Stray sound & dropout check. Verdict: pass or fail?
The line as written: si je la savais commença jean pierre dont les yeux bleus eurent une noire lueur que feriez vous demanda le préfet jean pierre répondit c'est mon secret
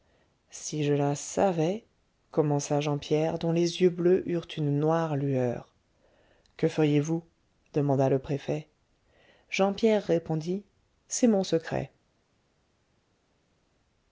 pass